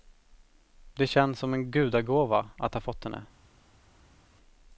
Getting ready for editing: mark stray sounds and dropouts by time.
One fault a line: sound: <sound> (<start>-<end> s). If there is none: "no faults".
no faults